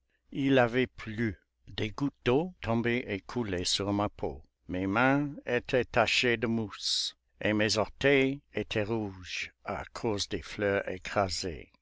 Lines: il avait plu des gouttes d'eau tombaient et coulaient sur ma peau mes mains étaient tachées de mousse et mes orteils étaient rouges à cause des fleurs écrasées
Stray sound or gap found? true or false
false